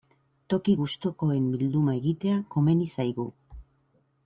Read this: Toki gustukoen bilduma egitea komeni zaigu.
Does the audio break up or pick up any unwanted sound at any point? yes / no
no